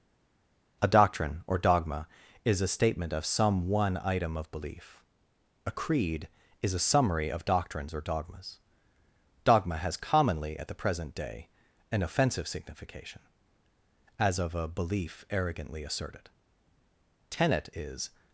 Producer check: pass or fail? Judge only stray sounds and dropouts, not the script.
pass